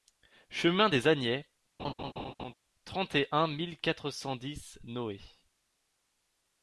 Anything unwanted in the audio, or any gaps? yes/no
yes